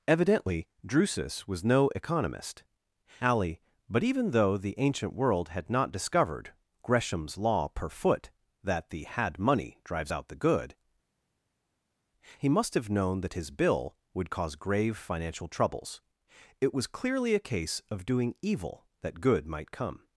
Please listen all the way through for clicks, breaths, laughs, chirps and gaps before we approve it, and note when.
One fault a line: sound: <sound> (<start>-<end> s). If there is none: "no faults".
no faults